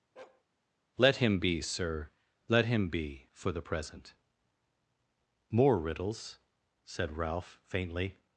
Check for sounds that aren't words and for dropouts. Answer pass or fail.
fail